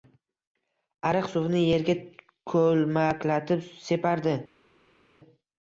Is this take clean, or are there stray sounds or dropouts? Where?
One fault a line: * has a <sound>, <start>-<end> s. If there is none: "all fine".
all fine